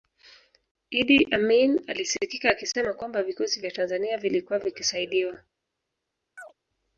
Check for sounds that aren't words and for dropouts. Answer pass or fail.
fail